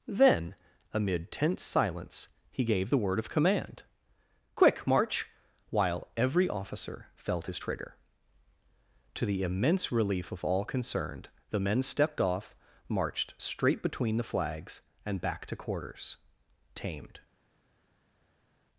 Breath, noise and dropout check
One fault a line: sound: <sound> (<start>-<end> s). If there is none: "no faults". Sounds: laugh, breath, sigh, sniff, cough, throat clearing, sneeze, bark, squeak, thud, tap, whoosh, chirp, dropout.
no faults